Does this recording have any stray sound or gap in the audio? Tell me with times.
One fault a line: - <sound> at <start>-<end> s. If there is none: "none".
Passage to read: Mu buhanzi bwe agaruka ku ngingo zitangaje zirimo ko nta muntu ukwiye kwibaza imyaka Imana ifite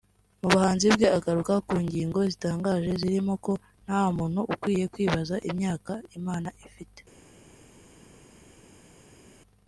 none